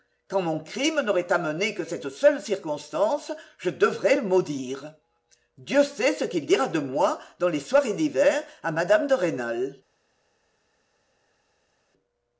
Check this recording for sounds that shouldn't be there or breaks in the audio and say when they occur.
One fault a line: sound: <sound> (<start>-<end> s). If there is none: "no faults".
no faults